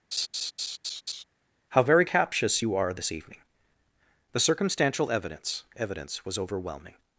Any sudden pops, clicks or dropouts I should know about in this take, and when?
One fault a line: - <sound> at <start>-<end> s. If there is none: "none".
- laugh at 0.1-1.2 s